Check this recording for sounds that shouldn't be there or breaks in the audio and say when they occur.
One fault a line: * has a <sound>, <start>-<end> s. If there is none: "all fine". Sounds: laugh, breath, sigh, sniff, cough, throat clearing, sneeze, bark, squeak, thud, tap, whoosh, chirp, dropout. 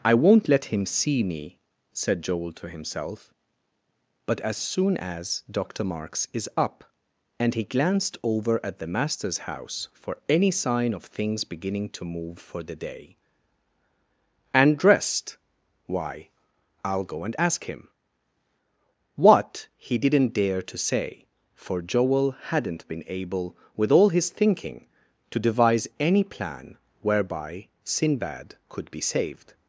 all fine